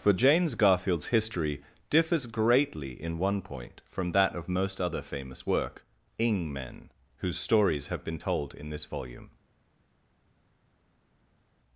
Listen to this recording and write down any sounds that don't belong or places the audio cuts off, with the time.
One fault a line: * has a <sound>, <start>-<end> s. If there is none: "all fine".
all fine